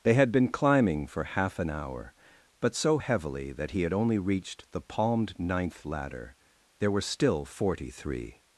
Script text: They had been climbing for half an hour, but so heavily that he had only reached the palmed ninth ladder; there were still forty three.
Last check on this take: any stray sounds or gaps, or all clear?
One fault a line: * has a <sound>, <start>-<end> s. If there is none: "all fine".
all fine